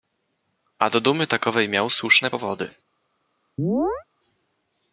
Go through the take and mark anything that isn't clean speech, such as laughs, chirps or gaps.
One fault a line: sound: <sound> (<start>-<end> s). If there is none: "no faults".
sound: chirp (3.6-4.0 s)